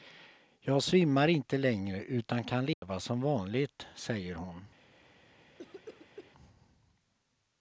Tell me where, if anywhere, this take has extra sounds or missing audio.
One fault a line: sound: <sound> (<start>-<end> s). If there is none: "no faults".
sound: dropout (2.7-2.8 s)
sound: cough (5.6-6.3 s)